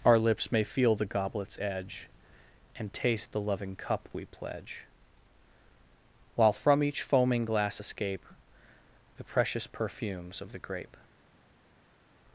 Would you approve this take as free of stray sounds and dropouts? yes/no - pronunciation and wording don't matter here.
yes